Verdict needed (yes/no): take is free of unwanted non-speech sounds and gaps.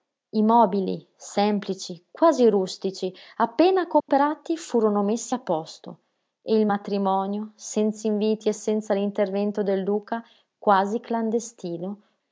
no